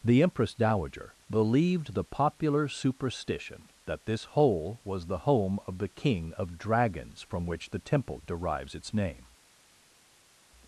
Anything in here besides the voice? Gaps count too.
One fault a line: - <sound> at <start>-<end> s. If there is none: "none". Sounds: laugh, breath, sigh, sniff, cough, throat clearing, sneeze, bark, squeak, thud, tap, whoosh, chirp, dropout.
none